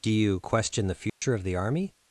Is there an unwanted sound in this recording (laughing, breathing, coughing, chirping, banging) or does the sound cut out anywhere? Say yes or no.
yes